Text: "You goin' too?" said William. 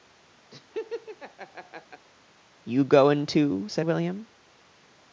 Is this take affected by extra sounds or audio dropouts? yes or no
yes